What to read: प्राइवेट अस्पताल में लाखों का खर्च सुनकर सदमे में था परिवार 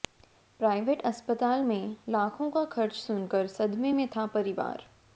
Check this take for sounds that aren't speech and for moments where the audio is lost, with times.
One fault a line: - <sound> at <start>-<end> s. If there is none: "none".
none